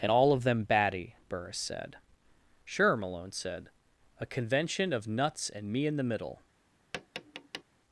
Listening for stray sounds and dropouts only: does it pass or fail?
fail